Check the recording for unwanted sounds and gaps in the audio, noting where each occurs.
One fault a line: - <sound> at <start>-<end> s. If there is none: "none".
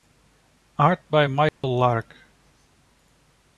- dropout at 1.5-1.6 s